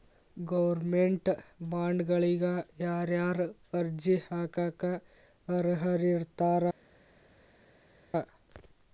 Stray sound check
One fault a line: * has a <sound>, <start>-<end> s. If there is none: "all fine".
all fine